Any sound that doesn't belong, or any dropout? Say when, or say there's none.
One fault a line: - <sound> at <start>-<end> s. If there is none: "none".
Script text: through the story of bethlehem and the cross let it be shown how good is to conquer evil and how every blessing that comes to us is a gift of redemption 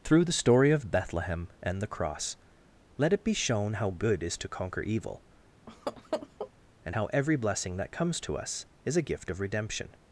- laugh at 5.7-6.5 s